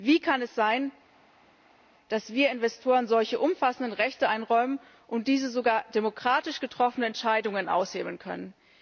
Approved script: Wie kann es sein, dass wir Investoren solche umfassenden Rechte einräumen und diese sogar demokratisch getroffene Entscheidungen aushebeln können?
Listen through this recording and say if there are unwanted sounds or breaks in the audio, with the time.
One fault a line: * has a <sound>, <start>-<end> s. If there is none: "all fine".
all fine